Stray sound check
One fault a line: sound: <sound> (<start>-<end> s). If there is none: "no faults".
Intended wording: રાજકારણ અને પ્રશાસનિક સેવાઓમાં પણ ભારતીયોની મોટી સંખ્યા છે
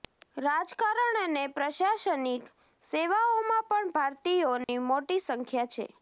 sound: dropout (4.6-4.7 s)